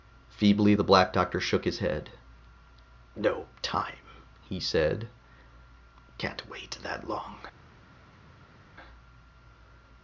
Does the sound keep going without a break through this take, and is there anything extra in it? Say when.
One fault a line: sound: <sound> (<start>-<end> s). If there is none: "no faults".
no faults